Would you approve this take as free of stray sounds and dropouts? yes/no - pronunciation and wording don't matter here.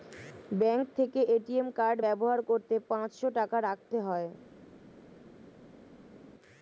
yes